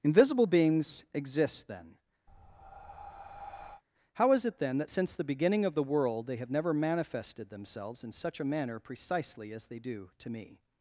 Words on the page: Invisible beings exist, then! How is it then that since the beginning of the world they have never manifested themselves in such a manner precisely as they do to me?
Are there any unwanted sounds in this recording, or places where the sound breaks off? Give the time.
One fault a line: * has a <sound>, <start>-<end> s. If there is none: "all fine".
* has a breath, 2.3-3.8 s